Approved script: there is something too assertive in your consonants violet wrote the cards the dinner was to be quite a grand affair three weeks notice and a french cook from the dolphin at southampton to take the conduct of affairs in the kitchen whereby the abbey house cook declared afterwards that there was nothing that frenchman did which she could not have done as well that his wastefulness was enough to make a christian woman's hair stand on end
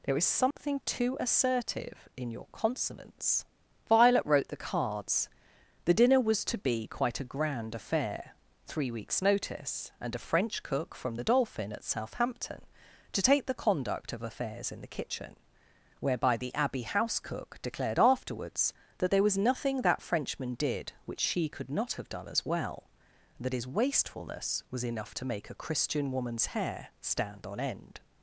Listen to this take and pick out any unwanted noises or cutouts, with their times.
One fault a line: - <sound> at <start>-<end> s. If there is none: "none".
- dropout at 0.5-0.6 s